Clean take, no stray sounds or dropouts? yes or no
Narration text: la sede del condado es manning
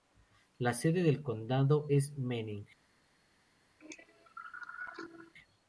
no